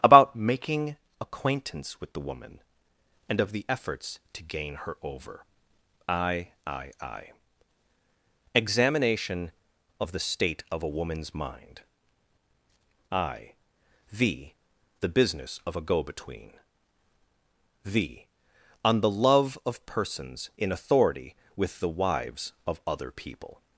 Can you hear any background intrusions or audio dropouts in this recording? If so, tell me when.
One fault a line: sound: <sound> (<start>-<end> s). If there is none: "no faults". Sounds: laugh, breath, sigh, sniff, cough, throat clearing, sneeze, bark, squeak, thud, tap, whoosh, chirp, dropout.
no faults